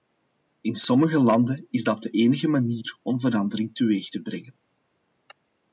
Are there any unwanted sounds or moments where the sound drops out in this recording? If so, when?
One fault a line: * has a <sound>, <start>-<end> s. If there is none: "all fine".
all fine